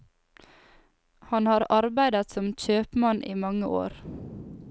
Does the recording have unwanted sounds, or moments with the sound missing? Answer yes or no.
no